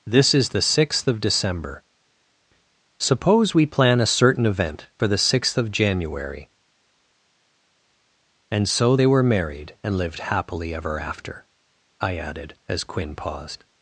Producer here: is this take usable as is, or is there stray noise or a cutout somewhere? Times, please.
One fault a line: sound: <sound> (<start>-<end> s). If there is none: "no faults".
no faults